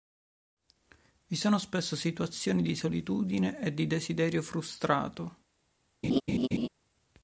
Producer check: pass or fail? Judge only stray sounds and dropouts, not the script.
fail